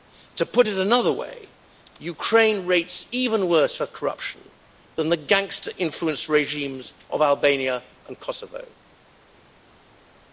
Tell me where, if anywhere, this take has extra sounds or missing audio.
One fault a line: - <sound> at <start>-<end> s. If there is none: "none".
none